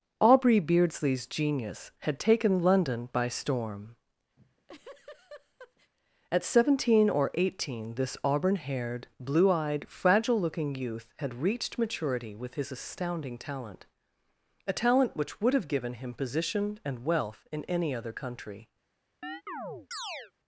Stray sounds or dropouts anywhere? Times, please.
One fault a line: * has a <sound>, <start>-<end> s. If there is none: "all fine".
* has a laugh, 4.4-5.9 s
* has a chirp, 19.2-20.3 s